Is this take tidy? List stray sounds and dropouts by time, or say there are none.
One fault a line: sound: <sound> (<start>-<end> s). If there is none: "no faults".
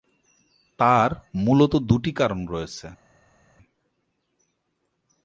no faults